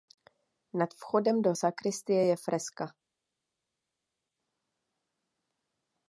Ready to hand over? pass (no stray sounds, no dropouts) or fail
pass